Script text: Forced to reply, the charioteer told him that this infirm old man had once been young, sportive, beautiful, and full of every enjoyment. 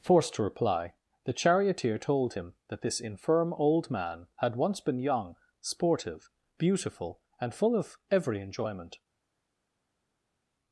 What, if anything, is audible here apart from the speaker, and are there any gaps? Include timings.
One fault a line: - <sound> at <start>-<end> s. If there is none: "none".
none